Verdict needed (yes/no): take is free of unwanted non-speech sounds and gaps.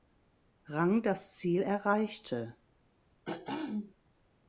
no